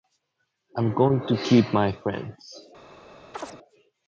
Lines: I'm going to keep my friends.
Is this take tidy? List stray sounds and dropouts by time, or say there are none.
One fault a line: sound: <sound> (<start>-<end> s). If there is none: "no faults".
sound: chirp (3.3-3.6 s)